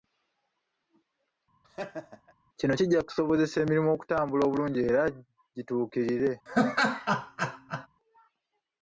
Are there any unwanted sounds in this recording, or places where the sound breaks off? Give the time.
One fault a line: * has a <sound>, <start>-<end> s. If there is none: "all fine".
* has a laugh, 1.6-2.3 s
* has a laugh, 6.5-7.9 s